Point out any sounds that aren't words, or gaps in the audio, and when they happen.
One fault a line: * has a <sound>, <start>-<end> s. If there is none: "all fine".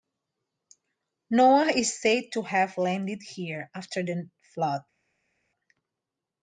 all fine